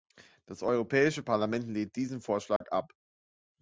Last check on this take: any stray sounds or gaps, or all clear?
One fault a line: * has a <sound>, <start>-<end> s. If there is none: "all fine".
* has a dropout, 2.6-2.6 s